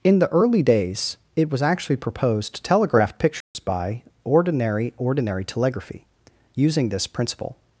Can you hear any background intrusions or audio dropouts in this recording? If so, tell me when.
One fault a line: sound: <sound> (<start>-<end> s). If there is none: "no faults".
sound: dropout (3.4-3.5 s)